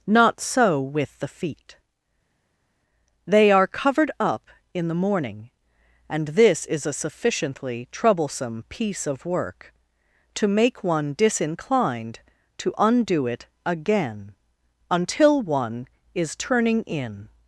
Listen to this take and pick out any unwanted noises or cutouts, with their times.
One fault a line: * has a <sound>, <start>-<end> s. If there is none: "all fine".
all fine